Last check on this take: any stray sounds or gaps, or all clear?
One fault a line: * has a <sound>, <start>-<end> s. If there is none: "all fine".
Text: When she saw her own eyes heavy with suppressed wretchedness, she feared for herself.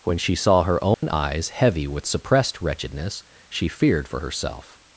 * has a dropout, 0.9-1.0 s